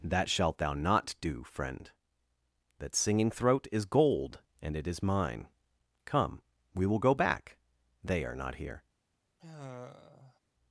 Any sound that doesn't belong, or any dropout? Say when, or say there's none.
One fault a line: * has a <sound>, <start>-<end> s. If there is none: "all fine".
* has a sigh, 9.4-10.4 s